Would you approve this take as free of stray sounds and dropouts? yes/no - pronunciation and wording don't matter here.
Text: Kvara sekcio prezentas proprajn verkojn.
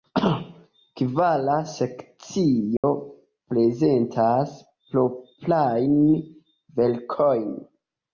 no